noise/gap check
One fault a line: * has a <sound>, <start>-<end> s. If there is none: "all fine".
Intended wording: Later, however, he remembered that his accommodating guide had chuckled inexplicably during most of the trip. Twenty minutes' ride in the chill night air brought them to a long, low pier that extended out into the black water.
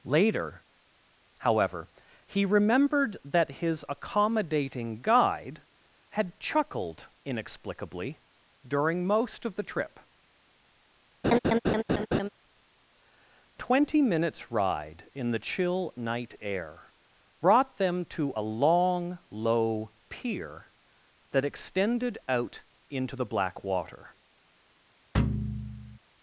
* has a laugh, 11.2-12.3 s
* has a thud, 25.1-26.0 s